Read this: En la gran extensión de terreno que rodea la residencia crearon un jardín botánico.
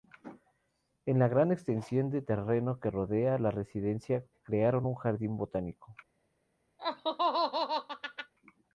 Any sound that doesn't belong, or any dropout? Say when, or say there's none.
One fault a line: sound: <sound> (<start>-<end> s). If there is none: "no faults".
sound: laugh (6.8-8.3 s)